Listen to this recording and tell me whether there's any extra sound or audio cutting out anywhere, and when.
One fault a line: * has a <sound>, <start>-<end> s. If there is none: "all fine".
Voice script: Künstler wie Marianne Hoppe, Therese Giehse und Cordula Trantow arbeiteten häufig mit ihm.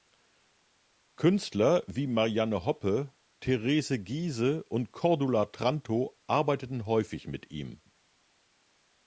all fine